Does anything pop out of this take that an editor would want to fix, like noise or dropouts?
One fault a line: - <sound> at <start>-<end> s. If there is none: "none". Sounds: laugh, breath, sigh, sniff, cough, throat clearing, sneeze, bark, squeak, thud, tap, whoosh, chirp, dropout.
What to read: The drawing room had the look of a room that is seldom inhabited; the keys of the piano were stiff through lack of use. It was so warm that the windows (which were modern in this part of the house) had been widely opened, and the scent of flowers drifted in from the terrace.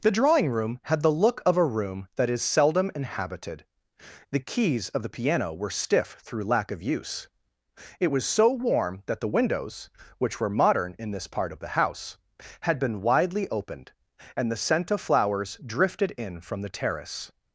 none